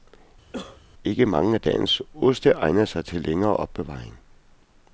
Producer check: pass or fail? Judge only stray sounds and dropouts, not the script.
fail